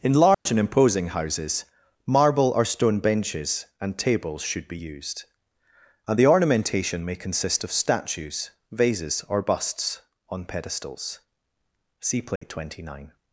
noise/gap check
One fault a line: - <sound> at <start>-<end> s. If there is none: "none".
- dropout at 0.3-0.5 s
- dropout at 12.4-12.4 s